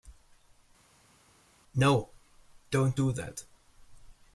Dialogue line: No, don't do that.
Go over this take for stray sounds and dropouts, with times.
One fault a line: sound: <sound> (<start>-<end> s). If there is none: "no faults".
no faults